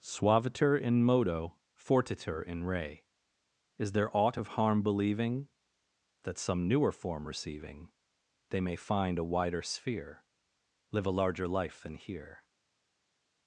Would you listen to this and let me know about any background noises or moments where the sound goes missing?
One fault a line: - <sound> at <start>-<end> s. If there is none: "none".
none